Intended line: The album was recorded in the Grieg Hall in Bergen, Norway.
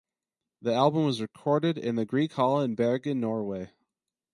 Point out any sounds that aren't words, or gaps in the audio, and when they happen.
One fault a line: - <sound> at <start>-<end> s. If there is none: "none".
none